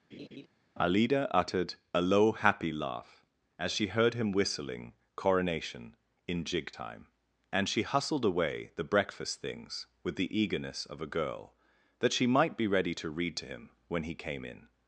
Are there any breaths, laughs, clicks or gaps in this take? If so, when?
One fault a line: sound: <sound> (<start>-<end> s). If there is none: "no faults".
sound: laugh (0.1-0.5 s)